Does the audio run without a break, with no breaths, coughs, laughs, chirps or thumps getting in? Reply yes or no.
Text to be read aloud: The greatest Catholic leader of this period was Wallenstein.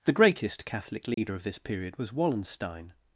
no